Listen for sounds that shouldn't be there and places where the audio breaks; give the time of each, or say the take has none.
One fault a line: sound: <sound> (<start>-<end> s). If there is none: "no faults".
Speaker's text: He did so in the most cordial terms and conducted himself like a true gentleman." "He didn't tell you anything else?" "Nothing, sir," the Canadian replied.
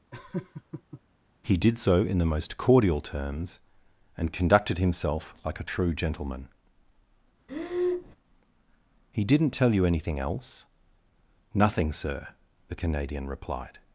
sound: laugh (0.1-1.0 s)
sound: breath (7.5-8.2 s)